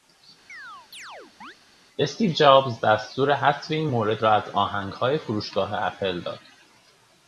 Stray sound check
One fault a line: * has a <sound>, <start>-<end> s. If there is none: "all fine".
* has a chirp, 0.5-1.6 s